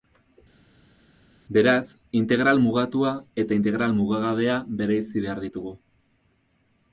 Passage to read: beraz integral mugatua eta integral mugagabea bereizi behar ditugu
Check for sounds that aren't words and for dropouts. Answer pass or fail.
pass